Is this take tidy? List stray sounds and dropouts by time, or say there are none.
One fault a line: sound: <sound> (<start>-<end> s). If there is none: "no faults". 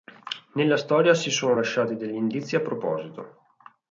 no faults